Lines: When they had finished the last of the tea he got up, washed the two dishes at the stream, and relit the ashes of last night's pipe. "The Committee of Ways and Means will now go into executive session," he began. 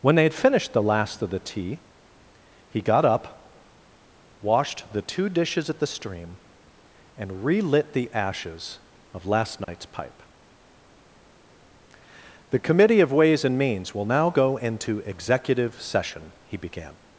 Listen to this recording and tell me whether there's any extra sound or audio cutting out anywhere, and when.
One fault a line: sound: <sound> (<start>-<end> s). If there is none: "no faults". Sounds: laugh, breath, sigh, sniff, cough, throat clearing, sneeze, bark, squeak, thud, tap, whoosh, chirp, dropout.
sound: dropout (9.6-9.7 s)